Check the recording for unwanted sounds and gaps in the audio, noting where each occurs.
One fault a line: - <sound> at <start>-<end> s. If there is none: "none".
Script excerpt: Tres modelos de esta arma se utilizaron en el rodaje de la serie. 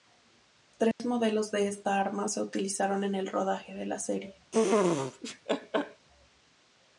- dropout at 0.9-1.0 s
- laugh at 4.5-6.1 s